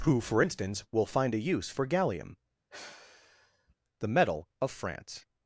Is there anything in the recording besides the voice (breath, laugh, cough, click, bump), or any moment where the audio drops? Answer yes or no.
yes